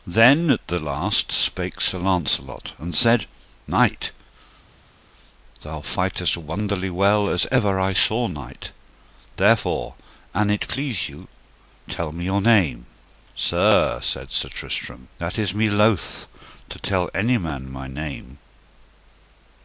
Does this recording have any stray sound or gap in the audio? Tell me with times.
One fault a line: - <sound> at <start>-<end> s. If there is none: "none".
none